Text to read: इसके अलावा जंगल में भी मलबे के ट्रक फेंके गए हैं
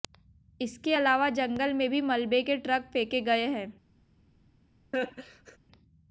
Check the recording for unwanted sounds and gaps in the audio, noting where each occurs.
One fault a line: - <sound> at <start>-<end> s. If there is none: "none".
- laugh at 4.9-5.6 s